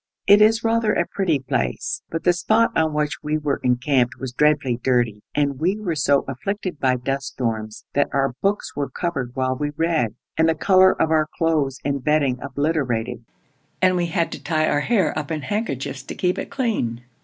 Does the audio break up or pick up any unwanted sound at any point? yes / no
no